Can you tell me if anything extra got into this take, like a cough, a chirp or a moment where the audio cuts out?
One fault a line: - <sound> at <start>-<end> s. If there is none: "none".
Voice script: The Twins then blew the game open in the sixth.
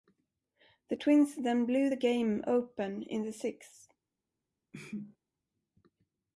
- sneeze at 4.7-5.2 s